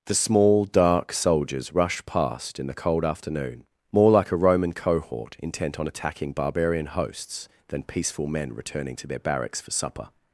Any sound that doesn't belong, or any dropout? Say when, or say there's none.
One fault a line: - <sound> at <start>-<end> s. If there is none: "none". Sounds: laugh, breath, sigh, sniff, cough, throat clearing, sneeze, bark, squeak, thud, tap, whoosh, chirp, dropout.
none